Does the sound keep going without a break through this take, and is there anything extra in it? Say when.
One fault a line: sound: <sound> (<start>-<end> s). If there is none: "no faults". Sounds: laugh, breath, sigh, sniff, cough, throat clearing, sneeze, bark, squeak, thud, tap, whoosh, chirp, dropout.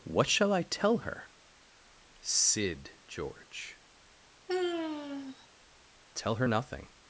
sound: sigh (4.5-5.5 s)